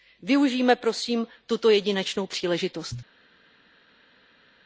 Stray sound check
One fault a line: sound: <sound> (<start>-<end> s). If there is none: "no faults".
no faults